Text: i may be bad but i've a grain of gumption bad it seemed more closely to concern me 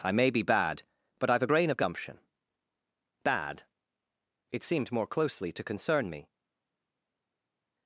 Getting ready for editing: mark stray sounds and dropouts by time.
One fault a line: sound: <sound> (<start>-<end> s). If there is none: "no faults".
no faults